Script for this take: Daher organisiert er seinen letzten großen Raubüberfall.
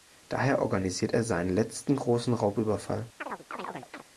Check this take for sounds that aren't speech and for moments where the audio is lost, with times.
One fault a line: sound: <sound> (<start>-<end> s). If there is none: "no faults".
sound: chirp (3.2-4.0 s)